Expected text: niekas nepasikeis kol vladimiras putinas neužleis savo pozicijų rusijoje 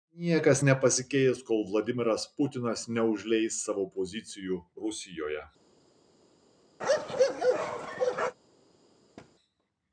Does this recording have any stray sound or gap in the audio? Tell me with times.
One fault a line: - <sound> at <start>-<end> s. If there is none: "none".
- bark at 6.8-8.4 s
- thud at 9.2-9.3 s